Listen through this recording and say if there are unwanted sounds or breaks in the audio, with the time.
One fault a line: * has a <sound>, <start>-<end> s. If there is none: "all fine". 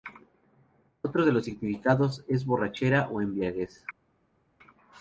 all fine